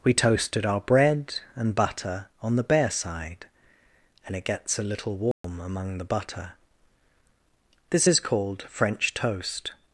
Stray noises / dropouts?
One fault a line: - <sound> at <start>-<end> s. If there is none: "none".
- dropout at 5.3-5.4 s